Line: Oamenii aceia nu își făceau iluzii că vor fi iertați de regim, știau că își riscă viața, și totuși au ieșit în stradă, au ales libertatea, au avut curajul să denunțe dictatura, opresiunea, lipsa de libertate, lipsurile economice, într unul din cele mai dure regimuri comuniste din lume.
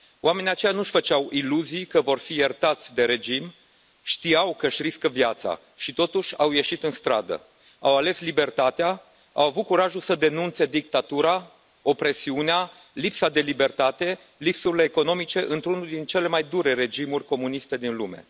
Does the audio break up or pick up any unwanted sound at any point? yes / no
no